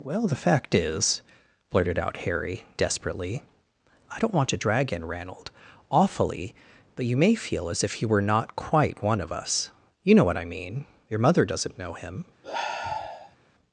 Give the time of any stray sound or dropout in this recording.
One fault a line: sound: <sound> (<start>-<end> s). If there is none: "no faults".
sound: sigh (12.4-13.4 s)